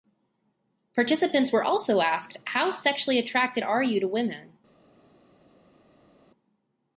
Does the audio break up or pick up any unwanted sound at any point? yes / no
no